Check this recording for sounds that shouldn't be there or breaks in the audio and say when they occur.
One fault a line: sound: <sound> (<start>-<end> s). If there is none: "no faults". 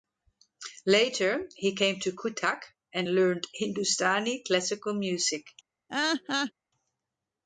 sound: laugh (5.9-6.5 s)